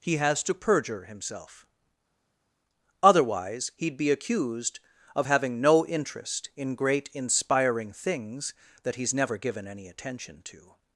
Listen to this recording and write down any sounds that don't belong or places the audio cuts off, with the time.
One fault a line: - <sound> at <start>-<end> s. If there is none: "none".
none